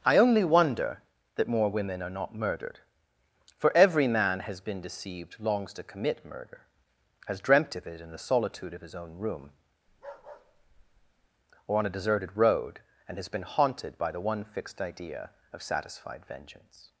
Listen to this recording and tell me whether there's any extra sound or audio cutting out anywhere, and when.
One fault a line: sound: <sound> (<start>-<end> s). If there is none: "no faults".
sound: bark (9.9-11.3 s)